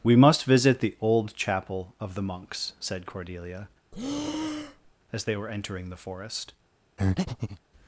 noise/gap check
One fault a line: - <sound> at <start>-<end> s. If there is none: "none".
- breath at 3.9-4.9 s
- breath at 7.0-7.6 s